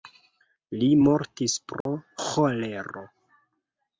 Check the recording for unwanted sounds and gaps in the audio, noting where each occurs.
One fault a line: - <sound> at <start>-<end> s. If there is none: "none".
- dropout at 1.8-1.9 s